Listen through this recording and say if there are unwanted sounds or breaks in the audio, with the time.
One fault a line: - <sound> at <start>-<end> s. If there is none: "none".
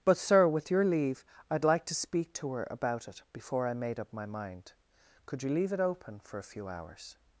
none